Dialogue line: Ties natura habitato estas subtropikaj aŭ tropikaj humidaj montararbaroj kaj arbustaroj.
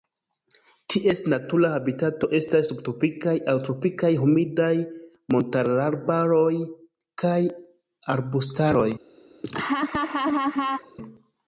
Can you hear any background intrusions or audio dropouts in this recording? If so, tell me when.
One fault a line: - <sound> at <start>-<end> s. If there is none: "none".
- laugh at 9.4-11.0 s